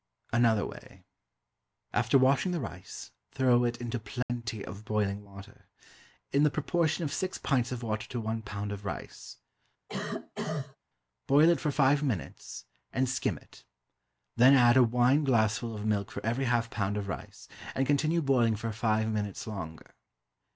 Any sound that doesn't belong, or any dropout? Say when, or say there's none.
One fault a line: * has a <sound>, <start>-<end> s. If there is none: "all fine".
* has a dropout, 4.2-4.3 s
* has a cough, 9.9-10.8 s